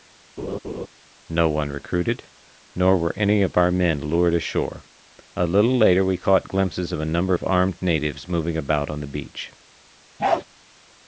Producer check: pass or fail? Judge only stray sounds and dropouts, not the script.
fail